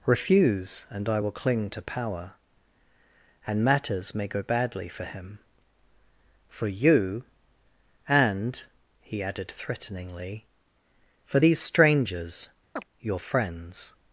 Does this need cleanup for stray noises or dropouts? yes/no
yes